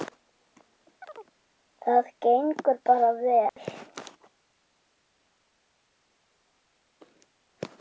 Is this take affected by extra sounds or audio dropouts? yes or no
yes